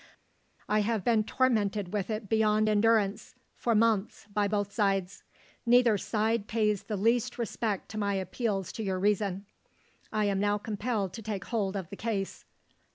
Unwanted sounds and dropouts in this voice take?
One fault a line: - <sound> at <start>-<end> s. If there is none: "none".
none